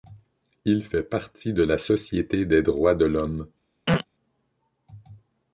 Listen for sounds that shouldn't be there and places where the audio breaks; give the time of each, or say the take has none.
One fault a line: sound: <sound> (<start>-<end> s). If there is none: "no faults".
sound: throat clearing (3.9-4.0 s)